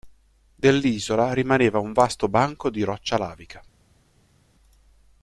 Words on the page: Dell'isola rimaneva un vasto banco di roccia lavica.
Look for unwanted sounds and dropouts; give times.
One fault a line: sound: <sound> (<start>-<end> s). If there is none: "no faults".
no faults